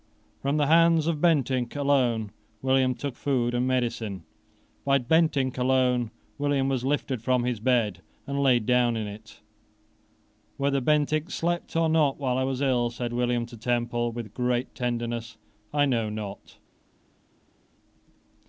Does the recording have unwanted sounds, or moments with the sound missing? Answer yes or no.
no